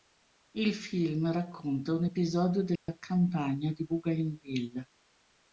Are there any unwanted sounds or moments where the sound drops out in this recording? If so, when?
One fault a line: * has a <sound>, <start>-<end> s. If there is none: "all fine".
* has a dropout, 2.8-2.9 s